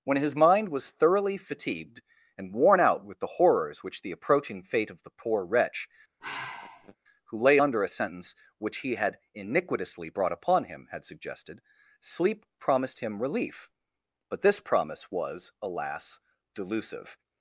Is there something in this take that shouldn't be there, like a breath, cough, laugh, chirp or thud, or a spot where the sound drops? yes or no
yes